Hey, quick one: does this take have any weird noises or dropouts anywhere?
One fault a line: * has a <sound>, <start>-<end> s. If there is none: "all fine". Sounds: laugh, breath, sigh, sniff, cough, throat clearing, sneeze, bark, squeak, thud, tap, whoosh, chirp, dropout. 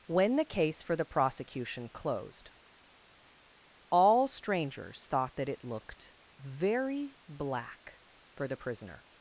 all fine